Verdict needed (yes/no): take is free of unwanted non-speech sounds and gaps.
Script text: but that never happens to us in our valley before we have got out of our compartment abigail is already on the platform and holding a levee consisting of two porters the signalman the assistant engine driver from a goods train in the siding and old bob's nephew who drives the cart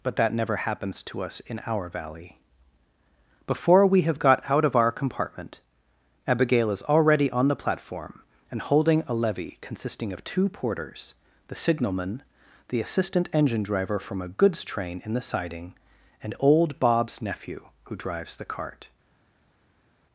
yes